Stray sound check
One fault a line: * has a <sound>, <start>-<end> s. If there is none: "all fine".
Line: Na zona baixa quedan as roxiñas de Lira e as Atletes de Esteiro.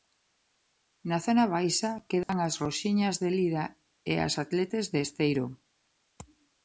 * has a dropout, 2.2-2.3 s